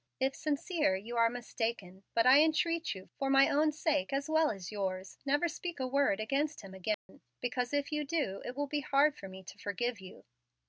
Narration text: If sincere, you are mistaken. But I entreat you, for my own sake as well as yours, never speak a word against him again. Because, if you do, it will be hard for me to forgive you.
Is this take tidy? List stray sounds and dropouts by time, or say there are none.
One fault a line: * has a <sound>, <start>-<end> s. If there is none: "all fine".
* has a dropout, 6.9-7.1 s